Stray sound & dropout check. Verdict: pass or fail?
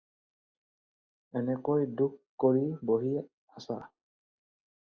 pass